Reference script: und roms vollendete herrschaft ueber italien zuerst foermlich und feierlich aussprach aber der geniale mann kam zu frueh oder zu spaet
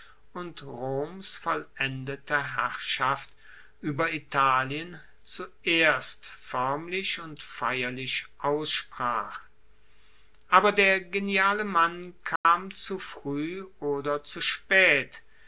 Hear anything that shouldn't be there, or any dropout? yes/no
yes